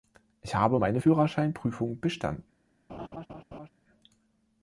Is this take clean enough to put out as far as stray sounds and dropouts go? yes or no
no